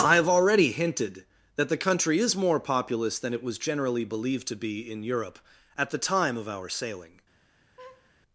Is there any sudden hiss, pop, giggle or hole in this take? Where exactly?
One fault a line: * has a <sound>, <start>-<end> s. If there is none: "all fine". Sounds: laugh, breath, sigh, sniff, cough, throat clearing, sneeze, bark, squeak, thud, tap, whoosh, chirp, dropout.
* has a laugh, 7.8-8.1 s